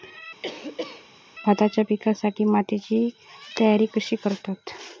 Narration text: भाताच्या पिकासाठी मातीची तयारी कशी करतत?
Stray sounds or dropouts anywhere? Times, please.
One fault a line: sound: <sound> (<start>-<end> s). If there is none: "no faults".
sound: cough (0.4-1.1 s)